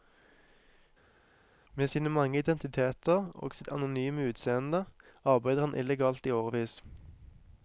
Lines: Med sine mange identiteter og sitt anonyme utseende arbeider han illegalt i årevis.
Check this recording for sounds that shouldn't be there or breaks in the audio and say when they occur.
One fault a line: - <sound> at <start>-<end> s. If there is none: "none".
none